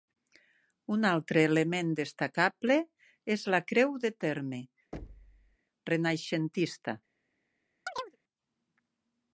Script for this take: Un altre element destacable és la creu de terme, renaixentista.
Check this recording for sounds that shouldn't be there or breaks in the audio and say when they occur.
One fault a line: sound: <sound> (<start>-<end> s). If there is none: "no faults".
sound: thud (4.9-5.6 s)
sound: chirp (7.9-8.2 s)